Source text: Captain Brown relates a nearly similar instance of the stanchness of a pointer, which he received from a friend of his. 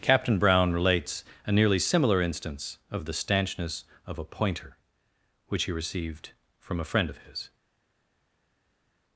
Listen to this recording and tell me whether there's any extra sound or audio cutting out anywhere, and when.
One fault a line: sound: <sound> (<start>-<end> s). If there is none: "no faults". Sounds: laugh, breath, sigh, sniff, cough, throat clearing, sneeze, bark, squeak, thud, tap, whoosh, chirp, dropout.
no faults